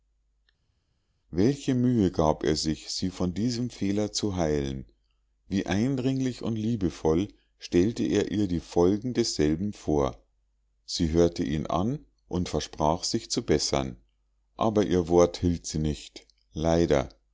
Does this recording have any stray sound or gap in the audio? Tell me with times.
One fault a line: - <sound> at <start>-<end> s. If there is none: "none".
none